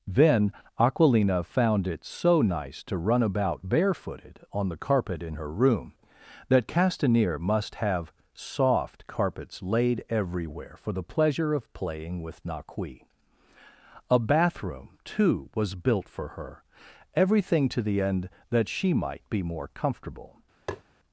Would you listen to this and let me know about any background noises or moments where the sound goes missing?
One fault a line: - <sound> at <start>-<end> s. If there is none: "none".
- tap at 20.7-20.8 s